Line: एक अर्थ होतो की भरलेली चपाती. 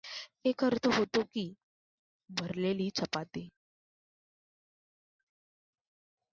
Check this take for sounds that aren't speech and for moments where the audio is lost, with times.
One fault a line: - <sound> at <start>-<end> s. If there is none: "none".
none